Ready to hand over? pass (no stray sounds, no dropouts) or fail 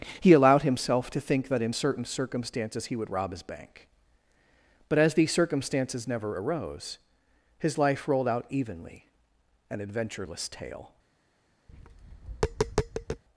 fail